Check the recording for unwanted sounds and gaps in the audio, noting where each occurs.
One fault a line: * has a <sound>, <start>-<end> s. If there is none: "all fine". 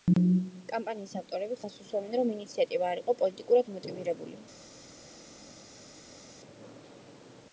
all fine